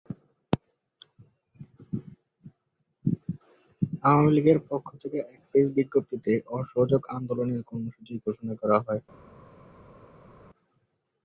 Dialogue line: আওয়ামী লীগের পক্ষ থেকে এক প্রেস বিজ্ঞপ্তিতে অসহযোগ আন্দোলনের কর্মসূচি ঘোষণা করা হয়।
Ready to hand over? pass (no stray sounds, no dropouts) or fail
pass